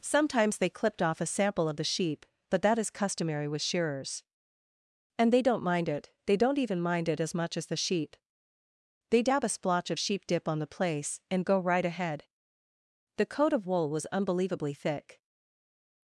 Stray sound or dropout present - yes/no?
no